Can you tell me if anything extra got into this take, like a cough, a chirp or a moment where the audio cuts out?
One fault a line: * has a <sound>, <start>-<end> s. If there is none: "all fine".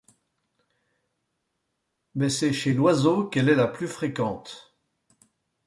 all fine